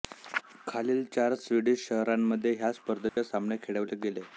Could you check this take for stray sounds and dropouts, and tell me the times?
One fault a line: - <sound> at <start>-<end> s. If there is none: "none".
- dropout at 3.1-3.2 s